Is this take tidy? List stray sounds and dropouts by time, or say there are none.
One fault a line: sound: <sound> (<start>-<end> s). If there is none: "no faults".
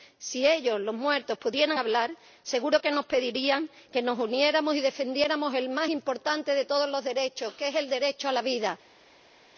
no faults